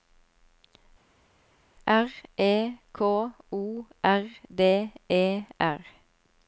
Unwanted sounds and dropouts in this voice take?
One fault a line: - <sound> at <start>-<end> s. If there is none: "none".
none